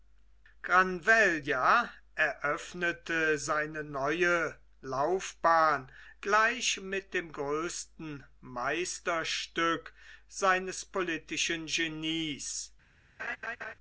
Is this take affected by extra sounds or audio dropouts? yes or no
yes